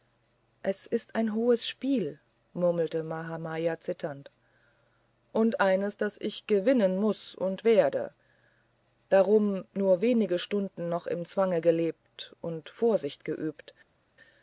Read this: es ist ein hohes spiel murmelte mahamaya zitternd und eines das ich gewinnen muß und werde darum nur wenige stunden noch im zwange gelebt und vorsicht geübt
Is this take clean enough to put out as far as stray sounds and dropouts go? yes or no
yes